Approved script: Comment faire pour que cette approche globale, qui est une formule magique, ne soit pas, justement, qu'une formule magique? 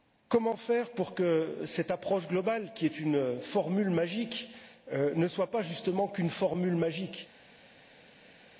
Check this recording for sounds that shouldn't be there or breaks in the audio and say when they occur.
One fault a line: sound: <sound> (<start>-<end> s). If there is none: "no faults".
no faults